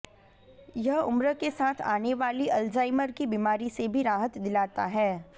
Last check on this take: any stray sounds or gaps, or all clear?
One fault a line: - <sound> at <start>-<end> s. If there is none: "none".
none